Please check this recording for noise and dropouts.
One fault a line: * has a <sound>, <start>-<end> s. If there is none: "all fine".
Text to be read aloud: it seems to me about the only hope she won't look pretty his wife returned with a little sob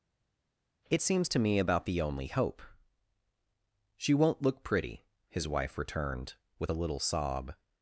all fine